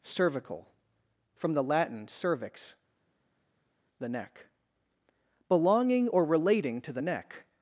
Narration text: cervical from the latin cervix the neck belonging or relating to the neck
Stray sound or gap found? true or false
false